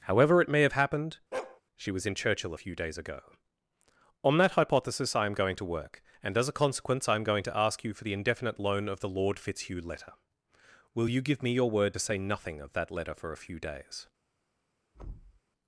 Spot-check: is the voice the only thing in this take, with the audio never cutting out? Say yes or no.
no